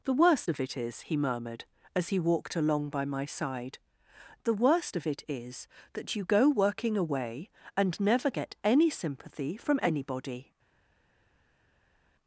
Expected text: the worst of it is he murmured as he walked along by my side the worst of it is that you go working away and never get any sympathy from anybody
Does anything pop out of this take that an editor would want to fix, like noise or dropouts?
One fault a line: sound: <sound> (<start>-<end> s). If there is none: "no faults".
no faults